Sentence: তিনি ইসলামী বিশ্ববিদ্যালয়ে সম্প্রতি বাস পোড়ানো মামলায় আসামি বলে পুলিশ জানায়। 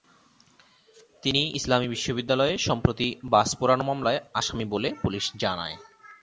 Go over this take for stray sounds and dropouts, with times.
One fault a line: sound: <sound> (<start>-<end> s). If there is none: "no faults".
no faults